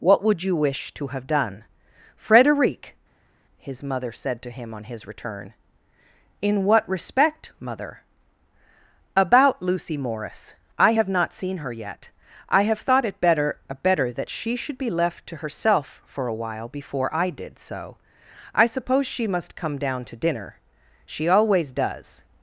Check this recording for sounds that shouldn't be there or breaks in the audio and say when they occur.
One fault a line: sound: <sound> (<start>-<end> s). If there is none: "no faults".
no faults